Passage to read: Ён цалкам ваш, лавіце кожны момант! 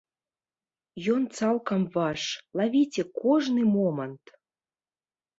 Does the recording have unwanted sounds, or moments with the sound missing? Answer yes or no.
no